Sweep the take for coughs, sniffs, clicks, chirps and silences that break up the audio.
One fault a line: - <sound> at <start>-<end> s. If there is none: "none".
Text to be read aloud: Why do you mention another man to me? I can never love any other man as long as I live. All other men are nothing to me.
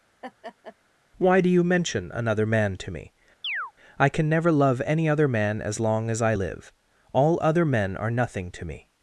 - laugh at 0.2-0.8 s
- chirp at 3.4-3.7 s